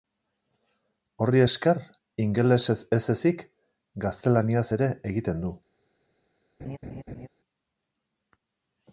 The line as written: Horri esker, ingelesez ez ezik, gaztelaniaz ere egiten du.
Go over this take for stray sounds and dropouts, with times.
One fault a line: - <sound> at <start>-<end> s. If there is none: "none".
- laugh at 6.6-7.3 s